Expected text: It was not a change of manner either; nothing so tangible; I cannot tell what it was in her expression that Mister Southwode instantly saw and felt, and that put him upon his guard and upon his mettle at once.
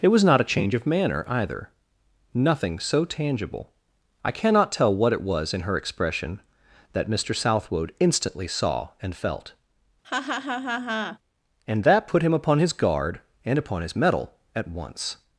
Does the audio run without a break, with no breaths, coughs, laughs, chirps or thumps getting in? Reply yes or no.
no